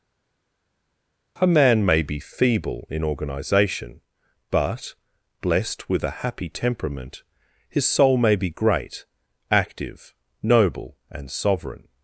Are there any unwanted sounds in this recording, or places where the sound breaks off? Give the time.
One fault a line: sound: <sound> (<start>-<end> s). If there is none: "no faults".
no faults